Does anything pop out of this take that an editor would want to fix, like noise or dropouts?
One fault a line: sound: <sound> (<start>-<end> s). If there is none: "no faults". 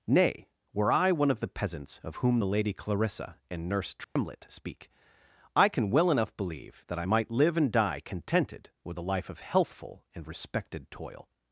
sound: dropout (4.0-4.2 s)